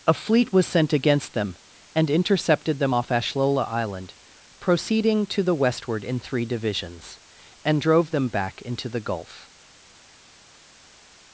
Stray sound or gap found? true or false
false